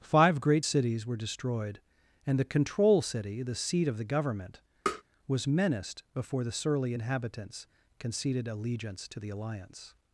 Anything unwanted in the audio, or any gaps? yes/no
yes